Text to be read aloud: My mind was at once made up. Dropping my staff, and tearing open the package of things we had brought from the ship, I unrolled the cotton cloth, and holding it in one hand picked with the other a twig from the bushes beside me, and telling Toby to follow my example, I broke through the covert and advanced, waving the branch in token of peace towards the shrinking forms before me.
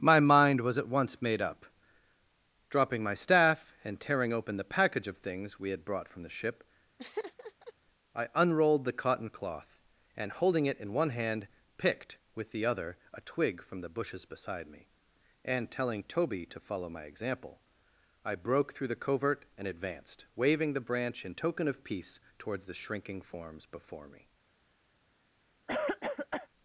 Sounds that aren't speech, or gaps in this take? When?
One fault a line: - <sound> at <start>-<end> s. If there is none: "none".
- laugh at 7.0-7.7 s
- cough at 25.7-26.5 s